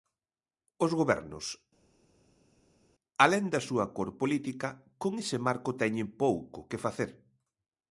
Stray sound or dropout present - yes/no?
no